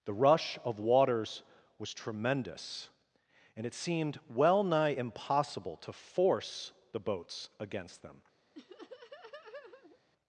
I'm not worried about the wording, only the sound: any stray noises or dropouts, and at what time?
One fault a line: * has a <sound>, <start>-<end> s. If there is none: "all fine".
* has a laugh, 8.5-10.0 s